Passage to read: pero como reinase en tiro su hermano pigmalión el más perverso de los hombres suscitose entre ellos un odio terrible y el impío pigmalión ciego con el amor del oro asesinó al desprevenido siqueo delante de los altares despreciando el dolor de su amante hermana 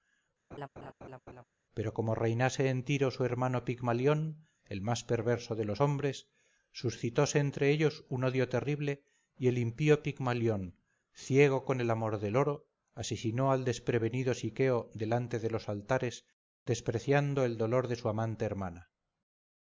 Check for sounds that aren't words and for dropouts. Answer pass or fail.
fail